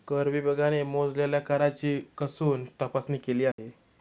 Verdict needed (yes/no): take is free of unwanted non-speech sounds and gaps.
no